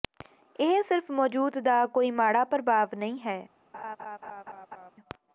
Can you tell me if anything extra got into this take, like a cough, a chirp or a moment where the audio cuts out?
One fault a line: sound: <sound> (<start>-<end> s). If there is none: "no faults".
sound: laugh (3.7-4.9 s)